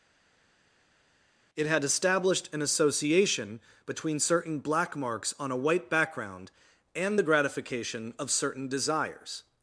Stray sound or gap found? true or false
false